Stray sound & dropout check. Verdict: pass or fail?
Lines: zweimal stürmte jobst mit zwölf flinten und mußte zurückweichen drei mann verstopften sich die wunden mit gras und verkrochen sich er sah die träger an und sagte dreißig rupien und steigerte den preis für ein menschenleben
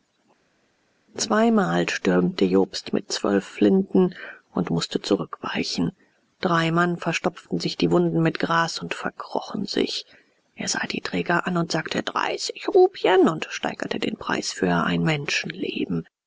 pass